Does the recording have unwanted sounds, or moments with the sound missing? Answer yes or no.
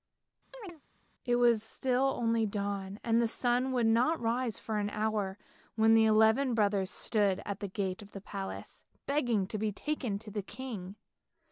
yes